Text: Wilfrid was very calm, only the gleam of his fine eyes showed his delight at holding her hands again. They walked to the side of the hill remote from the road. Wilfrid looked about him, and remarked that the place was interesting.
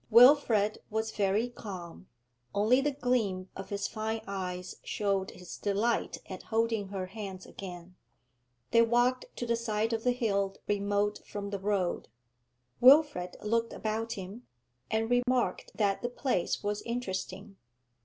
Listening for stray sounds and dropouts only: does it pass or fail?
fail